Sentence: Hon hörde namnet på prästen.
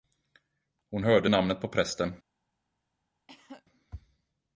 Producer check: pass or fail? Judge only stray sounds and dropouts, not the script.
fail